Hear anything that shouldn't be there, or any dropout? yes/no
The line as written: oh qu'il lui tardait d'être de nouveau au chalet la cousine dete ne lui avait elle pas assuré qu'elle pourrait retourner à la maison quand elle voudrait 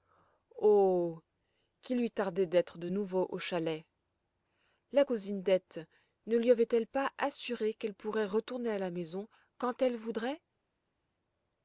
no